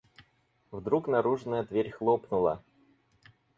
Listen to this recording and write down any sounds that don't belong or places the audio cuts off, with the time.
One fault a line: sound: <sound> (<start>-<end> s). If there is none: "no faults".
no faults